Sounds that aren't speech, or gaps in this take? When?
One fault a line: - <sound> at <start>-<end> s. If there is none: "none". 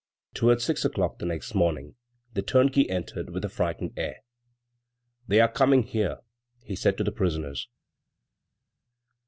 none